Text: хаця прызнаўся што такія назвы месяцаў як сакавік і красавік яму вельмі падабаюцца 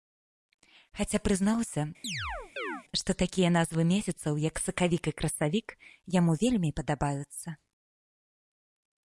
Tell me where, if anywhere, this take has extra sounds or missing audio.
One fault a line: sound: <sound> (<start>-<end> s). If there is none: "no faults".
sound: chirp (2.0-2.8 s)